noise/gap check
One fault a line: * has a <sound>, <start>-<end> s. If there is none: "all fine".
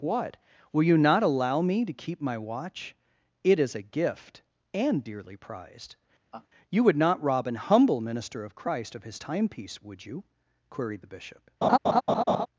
* has a laugh, 6.3-6.5 s
* has a laugh, 11.6-12.5 s